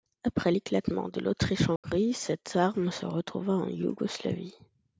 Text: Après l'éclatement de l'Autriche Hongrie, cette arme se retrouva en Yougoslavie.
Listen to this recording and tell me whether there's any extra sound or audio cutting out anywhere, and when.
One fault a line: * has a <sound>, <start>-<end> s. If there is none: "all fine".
* has a dropout, 1.8-1.8 s